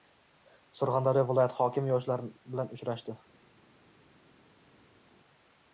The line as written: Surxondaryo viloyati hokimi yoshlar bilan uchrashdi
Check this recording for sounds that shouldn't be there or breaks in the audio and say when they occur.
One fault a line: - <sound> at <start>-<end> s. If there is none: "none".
none